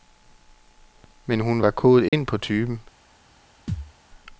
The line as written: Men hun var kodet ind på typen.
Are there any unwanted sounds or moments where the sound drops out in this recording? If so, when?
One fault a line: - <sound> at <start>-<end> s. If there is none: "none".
- dropout at 2.1-2.1 s
- thud at 3.7-3.9 s